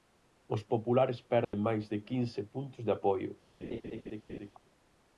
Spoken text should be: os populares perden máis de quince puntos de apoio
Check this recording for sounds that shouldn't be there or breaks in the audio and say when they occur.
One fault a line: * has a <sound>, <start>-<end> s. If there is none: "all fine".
* has a dropout, 1.4-1.5 s
* has a laugh, 3.6-4.5 s